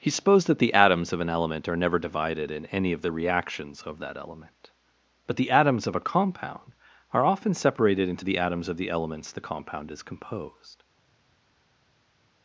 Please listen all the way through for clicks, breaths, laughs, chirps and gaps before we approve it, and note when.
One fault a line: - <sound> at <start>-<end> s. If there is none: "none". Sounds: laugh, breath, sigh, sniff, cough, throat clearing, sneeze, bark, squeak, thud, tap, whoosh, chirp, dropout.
none